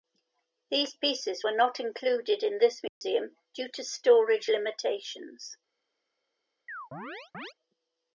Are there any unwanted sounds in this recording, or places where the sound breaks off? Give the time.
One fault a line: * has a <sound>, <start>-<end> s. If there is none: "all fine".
* has a dropout, 2.9-3.0 s
* has a chirp, 6.7-7.5 s